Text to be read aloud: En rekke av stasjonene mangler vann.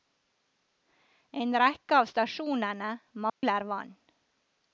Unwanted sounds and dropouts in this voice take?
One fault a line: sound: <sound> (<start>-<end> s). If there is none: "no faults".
sound: dropout (3.3-3.4 s)